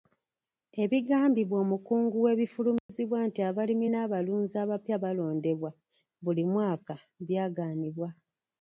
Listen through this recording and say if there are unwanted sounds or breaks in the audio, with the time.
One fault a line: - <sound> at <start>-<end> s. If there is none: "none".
- dropout at 2.8-2.9 s